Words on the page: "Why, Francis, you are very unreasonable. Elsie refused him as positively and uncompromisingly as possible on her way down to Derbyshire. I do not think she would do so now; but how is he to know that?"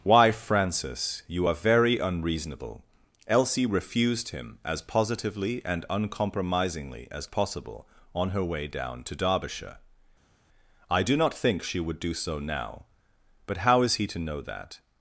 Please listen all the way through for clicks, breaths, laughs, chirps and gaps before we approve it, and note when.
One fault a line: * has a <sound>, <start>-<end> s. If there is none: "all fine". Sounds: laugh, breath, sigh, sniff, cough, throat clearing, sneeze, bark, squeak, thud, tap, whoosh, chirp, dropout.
all fine